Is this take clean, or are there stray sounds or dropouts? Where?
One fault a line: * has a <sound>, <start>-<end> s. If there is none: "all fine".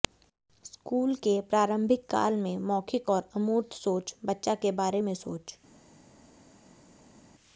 all fine